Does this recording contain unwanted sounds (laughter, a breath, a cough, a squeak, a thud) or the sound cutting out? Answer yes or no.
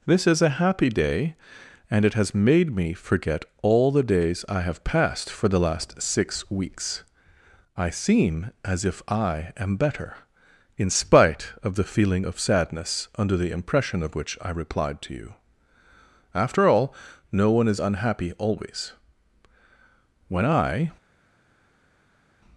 no